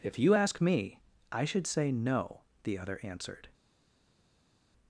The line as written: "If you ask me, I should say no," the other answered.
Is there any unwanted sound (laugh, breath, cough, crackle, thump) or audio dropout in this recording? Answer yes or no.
no